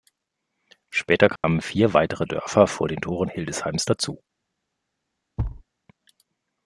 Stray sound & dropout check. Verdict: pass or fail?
fail